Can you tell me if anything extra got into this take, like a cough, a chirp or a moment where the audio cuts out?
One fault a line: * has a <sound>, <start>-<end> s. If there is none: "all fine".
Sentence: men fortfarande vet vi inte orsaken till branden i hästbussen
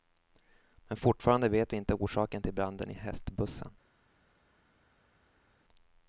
all fine